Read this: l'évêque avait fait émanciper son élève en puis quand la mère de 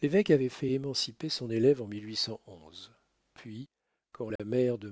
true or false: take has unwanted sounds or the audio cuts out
true